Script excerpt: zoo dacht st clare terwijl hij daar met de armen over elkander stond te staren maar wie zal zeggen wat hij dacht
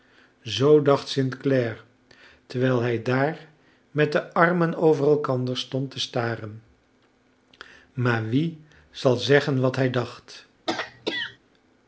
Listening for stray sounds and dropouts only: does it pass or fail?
fail